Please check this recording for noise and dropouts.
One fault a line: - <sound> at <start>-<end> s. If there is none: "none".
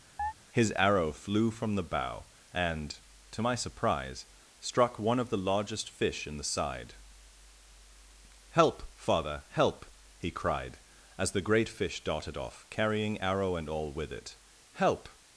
- chirp at 0.2-0.3 s